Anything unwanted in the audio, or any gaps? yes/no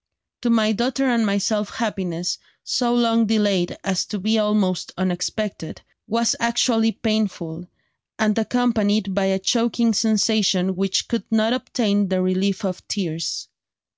no